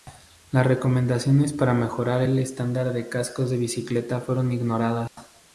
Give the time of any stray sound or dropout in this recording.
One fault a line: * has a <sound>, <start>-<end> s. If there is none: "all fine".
* has a dropout, 5.1-5.2 s